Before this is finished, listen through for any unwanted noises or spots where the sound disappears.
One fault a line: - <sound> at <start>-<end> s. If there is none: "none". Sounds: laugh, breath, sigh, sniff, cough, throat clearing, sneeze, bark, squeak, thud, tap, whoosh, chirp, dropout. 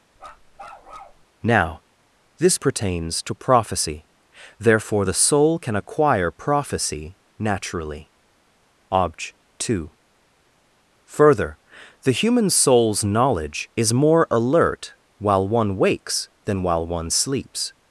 - bark at 0.2-1.2 s